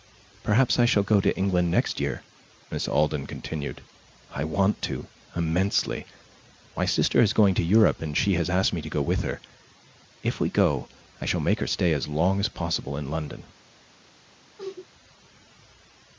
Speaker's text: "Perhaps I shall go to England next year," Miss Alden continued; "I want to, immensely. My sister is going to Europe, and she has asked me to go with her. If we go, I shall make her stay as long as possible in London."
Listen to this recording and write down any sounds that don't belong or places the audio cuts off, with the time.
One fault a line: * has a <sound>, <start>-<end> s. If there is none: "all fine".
* has a sneeze, 14.6-14.9 s